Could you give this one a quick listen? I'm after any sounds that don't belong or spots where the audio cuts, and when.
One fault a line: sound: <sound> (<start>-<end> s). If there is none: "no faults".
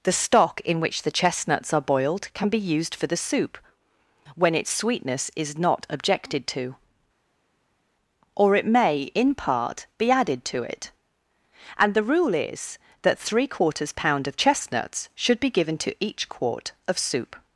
no faults